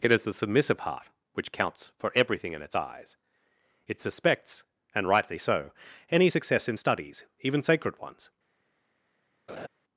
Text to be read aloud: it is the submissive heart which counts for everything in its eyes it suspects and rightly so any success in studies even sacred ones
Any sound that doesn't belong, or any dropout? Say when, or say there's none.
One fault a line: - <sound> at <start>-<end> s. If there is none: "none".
- laugh at 9.5-9.7 s